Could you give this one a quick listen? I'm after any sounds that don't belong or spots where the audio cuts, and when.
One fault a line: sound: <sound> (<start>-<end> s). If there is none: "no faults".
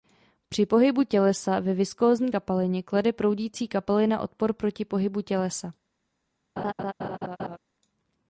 sound: laugh (6.6-7.6 s)